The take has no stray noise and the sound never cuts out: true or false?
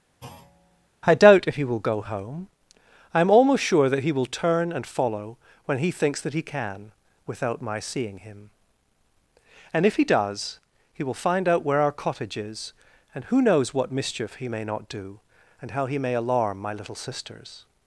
false